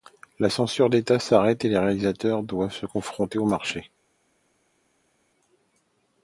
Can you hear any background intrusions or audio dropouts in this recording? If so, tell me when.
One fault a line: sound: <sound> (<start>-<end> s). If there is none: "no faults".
no faults